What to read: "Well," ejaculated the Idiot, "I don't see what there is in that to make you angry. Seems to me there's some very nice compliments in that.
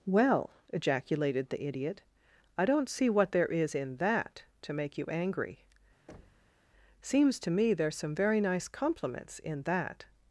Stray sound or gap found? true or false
true